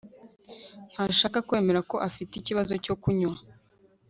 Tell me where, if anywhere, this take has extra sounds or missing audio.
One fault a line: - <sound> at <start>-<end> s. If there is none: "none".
none